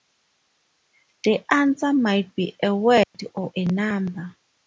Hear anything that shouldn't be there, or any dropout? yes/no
yes